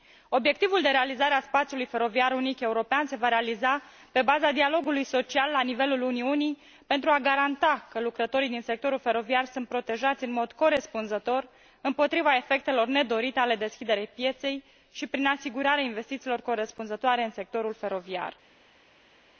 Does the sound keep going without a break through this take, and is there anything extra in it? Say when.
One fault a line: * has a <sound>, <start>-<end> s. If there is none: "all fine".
all fine